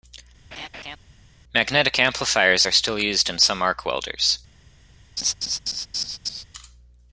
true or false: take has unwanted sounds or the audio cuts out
true